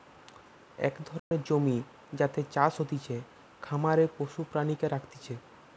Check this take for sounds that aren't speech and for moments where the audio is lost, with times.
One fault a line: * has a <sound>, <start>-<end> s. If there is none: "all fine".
* has a dropout, 1.2-1.3 s